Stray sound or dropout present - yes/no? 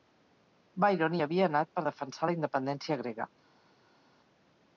no